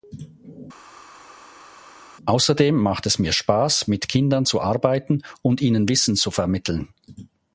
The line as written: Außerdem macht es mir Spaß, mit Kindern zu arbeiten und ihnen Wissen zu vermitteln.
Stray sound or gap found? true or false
false